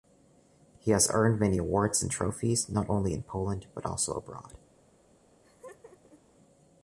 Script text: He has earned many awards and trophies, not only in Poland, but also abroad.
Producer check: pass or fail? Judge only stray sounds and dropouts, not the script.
fail